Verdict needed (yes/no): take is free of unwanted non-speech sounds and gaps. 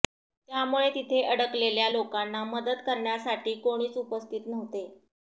yes